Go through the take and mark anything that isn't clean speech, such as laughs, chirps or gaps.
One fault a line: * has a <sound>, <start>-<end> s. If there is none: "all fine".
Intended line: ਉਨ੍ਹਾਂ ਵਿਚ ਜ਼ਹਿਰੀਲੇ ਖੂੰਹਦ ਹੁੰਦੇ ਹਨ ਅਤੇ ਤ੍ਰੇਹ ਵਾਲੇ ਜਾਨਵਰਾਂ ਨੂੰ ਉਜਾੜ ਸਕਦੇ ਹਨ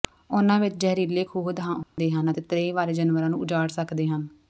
* has a dropout, 1.8-2.0 s